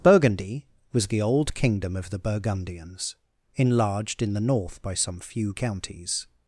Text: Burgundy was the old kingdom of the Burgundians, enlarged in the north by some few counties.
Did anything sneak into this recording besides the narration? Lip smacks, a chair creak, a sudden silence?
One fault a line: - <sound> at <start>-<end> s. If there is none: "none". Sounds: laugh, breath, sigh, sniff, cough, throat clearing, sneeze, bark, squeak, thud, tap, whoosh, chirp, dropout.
none